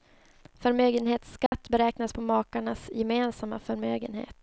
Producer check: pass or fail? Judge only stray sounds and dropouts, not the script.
fail